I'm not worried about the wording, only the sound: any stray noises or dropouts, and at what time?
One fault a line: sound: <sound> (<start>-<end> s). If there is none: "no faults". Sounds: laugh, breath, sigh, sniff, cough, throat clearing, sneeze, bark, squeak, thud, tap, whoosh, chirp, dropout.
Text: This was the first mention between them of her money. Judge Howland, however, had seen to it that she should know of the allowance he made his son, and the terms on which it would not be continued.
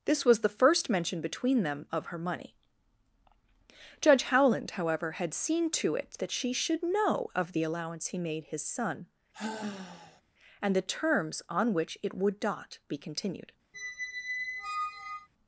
sound: sigh (9.3-10.2 s)
sound: squeak (13.7-15.3 s)